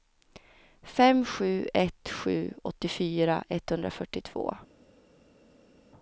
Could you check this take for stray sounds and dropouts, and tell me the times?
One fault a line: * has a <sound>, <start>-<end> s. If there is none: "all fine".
all fine